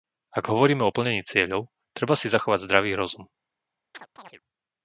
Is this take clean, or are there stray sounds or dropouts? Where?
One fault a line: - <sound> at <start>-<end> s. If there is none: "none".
- chirp at 3.9-4.4 s